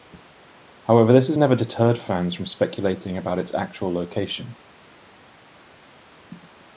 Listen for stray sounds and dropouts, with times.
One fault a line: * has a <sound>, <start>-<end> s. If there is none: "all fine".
all fine